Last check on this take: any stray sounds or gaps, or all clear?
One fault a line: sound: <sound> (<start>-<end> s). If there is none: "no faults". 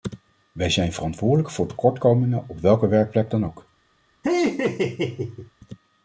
sound: laugh (4.2-5.5 s)